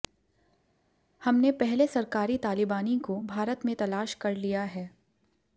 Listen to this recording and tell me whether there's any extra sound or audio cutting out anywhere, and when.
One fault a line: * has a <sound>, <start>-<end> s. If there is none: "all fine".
all fine